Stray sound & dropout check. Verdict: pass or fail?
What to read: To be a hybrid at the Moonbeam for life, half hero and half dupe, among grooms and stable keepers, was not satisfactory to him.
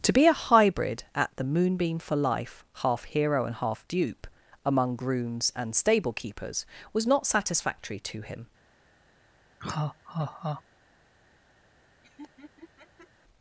fail